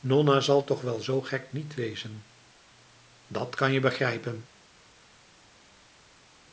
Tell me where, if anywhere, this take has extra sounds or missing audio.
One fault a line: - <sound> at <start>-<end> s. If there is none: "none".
none